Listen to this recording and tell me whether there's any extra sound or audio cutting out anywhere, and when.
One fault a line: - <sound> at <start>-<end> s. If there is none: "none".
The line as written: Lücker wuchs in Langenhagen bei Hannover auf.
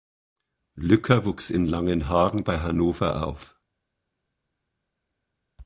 none